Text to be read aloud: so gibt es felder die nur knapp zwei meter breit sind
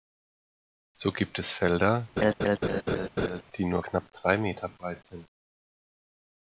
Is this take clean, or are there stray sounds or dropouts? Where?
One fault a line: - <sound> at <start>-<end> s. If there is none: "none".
- laugh at 2.2-3.4 s